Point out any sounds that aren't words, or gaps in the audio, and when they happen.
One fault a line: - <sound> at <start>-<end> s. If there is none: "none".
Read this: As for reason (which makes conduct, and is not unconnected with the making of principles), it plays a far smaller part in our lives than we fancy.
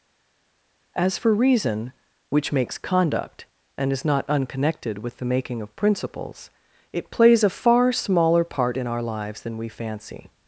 none